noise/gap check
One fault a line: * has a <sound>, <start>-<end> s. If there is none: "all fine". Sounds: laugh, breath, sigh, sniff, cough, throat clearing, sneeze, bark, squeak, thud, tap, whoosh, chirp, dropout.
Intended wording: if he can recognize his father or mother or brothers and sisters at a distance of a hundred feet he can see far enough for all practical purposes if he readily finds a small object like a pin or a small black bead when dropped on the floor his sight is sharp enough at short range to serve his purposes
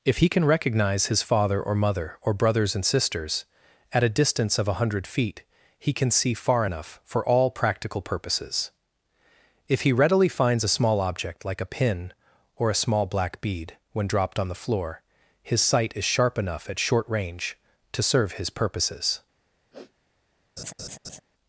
* has a sniff, 19.7-19.9 s
* has a laugh, 20.6-21.2 s